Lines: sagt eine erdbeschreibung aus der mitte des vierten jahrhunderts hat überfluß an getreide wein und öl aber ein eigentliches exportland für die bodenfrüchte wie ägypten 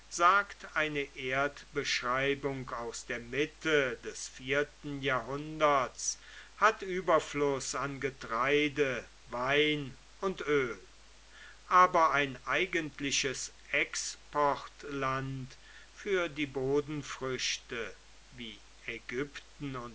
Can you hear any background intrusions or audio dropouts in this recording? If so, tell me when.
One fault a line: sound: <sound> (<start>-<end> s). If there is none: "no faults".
no faults